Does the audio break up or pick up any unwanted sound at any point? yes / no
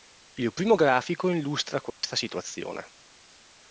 yes